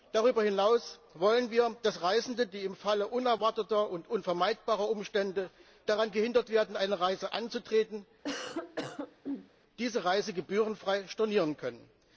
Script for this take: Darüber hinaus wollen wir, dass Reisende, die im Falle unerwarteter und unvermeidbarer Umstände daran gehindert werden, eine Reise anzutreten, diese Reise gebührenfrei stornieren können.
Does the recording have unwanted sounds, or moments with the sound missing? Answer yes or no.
yes